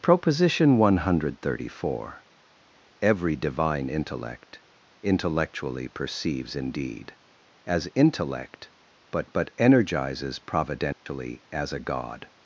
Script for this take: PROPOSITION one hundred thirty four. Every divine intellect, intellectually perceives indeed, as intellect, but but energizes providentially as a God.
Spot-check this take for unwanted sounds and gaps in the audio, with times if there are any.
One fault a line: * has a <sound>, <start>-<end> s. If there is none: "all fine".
* has a dropout, 10.9-11.1 s